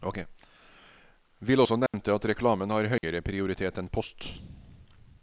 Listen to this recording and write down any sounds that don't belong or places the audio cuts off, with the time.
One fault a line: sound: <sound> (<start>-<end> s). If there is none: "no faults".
sound: dropout (1.9-1.9 s)
sound: dropout (3.0-3.0 s)